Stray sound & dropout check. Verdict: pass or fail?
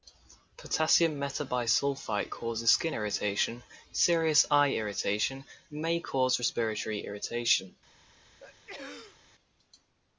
fail